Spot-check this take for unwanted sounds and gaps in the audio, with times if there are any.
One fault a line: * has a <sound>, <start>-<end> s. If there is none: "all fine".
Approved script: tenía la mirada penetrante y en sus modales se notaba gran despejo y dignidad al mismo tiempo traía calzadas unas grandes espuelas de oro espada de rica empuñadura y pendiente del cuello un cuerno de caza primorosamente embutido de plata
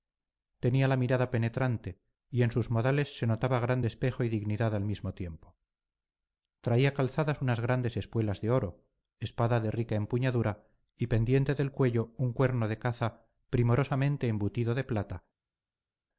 all fine